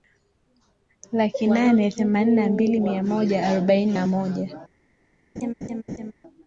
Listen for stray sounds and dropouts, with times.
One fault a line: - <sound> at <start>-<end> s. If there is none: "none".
- laugh at 5.4-6.1 s